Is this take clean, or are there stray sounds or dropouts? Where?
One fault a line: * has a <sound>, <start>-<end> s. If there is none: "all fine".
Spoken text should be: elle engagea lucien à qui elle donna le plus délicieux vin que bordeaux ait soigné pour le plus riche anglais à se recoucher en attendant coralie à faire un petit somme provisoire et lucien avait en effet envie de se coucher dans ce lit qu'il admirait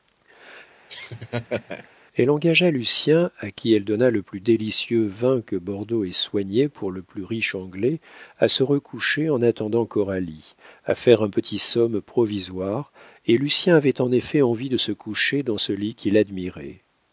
* has a laugh, 0.9-1.9 s